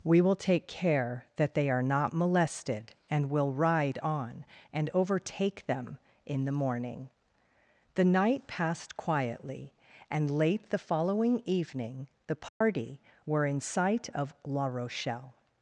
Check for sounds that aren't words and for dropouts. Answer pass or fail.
fail